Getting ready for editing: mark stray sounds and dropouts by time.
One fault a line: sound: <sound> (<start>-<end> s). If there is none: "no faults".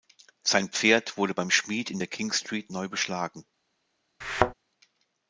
sound: thud (4.2-4.5 s)